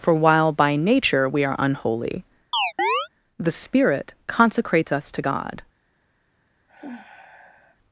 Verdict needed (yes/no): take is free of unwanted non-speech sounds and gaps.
no